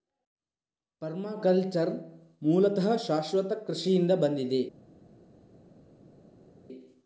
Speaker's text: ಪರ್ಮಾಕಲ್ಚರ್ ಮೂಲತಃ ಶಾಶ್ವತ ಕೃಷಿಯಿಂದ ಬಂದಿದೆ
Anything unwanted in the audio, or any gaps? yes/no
no